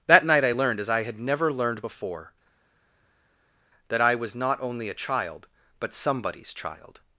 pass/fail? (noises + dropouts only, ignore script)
pass